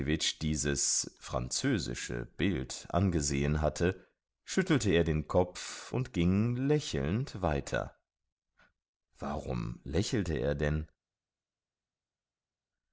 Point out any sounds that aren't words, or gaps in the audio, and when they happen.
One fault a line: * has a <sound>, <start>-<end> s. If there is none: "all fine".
all fine